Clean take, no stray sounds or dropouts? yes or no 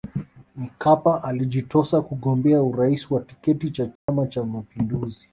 no